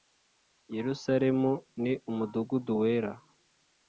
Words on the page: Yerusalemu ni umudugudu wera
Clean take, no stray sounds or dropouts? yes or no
yes